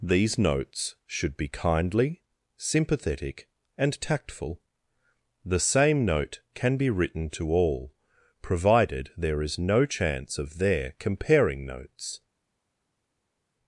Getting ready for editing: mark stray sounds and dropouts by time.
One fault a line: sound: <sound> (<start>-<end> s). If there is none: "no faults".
no faults